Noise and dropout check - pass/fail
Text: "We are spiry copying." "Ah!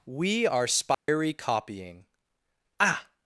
fail